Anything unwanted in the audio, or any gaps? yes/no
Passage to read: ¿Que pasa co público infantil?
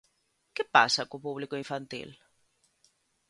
no